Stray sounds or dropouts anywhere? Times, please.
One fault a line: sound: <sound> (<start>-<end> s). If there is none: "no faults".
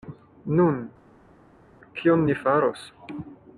no faults